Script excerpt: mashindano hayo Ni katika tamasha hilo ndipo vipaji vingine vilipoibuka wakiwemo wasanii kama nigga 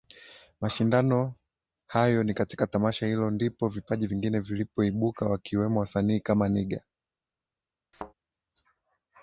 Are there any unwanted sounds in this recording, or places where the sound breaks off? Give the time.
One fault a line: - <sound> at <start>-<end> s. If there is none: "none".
- thud at 7.9-8.1 s